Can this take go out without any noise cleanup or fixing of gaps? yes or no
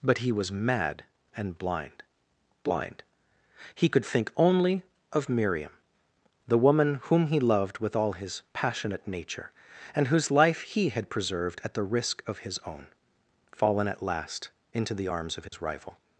no